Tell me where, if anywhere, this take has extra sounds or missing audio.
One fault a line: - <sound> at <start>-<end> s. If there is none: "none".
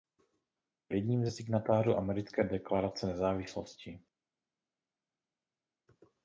none